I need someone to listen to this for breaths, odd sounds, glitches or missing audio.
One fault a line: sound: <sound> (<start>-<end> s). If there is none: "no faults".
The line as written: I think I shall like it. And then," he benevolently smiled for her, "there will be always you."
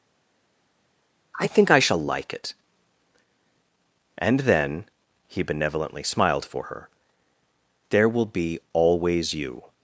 no faults